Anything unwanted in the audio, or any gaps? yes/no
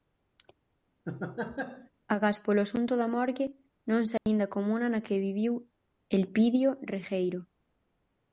yes